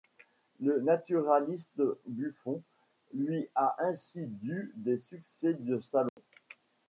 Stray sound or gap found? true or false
true